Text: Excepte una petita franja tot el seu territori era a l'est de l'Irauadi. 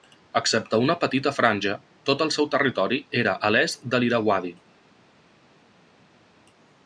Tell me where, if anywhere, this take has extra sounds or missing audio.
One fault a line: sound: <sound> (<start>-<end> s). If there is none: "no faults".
no faults